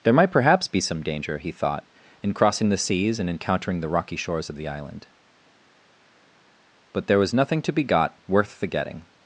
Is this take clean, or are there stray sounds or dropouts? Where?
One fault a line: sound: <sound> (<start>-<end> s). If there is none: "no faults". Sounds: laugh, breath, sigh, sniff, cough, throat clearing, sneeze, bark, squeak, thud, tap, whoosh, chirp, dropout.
no faults